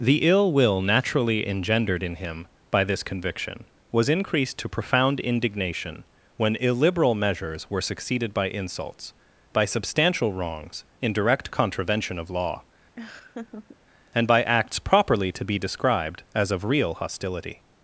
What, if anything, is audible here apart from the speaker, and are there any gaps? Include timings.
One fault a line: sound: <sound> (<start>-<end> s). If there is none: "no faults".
sound: laugh (13.0-13.8 s)